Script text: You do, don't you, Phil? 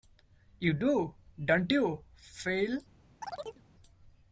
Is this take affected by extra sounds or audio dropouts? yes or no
yes